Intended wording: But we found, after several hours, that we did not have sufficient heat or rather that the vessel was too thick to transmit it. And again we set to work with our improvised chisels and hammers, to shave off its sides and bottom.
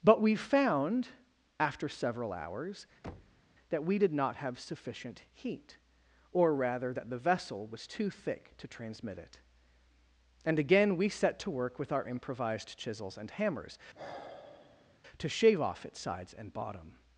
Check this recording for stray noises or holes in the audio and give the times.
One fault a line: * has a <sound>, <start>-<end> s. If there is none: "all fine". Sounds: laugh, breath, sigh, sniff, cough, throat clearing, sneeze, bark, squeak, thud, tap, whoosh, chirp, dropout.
* has a thud, 3.0-3.4 s
* has a sigh, 13.9-15.0 s